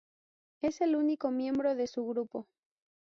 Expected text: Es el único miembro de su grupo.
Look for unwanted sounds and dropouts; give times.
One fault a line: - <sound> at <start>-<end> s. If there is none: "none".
none